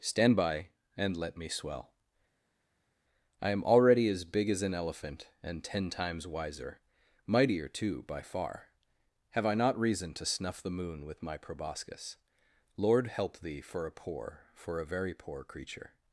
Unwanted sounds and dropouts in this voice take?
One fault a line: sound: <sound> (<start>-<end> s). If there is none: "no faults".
no faults